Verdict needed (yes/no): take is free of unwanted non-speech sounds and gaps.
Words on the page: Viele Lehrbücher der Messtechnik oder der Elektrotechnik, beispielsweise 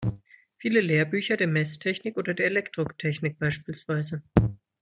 yes